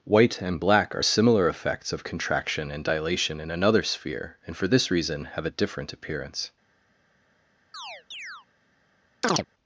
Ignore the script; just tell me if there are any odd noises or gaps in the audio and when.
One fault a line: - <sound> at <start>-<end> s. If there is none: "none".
- chirp at 7.7-8.5 s
- chirp at 9.2-9.5 s